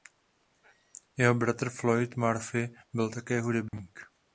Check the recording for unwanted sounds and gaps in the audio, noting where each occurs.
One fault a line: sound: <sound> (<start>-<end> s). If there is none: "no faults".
sound: dropout (3.7-3.7 s)